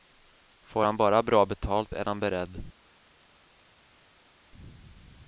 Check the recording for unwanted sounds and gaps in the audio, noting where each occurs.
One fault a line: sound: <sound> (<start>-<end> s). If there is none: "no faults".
no faults